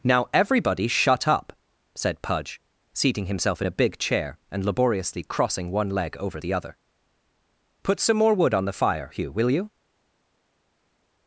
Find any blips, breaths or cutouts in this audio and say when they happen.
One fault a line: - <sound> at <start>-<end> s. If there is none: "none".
none